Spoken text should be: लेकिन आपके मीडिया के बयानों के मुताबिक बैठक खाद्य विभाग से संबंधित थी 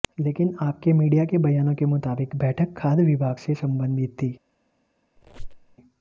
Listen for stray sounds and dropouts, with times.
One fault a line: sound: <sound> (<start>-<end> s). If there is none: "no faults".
sound: squeak (5.2-5.8 s)